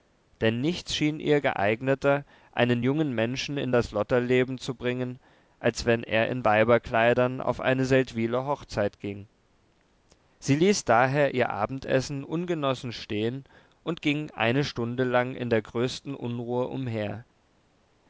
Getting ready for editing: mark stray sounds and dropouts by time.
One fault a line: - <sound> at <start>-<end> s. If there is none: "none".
none